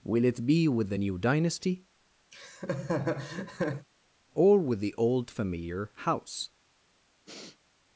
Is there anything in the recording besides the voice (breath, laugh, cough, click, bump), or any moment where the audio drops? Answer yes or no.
yes